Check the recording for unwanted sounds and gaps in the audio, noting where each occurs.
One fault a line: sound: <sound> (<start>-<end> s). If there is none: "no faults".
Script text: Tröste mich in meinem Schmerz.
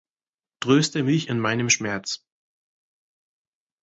no faults